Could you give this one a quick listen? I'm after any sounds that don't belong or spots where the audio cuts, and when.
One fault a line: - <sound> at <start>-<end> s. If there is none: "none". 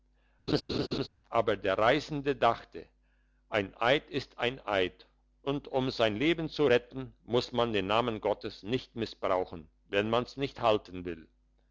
- laugh at 0.5-1.1 s